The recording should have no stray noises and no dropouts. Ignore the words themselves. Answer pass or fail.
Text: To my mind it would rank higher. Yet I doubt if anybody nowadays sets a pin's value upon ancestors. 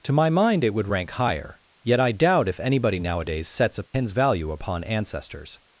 fail